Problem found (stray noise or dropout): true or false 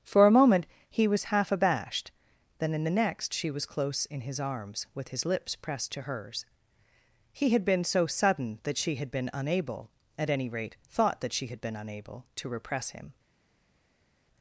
false